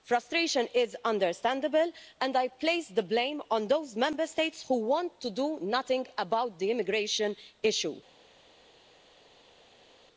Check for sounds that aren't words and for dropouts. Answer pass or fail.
pass